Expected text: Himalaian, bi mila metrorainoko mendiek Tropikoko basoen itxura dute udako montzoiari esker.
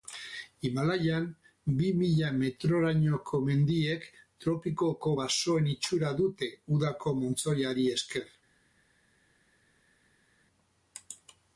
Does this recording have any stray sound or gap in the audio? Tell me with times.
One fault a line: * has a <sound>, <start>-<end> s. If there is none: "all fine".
all fine